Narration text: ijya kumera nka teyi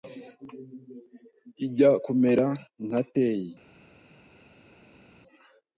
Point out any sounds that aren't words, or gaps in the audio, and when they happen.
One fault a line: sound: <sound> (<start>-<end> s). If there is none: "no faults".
no faults